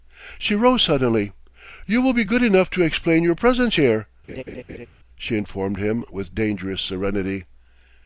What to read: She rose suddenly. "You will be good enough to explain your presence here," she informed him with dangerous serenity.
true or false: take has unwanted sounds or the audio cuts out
true